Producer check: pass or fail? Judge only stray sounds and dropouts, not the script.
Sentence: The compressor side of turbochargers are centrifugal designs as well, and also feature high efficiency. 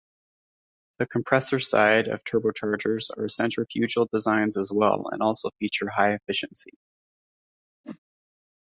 fail